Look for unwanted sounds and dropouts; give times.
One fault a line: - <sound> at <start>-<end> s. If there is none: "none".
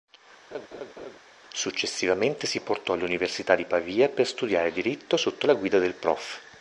- laugh at 0.5-1.2 s